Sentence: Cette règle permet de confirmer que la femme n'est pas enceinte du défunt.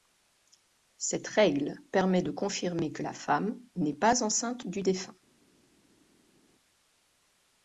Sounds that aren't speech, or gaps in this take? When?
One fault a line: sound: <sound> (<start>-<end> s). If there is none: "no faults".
no faults